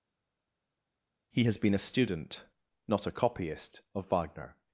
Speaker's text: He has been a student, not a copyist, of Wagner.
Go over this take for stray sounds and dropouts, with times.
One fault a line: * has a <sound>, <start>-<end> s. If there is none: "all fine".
all fine